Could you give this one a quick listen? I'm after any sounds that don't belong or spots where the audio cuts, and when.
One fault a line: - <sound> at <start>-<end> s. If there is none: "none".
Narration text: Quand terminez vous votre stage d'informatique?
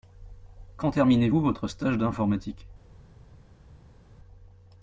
none